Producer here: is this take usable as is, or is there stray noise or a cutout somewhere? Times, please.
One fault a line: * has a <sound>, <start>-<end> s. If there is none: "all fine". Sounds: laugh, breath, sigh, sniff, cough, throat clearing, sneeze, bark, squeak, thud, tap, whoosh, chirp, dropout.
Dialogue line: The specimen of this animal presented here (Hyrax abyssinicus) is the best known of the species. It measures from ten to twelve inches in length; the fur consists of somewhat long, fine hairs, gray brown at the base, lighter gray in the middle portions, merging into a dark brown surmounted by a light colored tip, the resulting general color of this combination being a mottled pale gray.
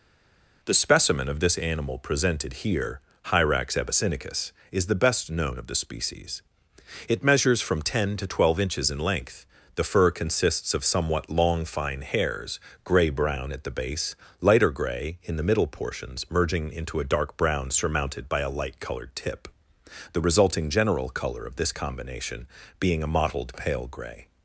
all fine